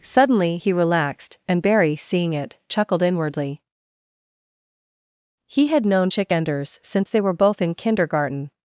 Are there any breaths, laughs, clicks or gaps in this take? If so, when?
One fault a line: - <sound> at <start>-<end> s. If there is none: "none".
none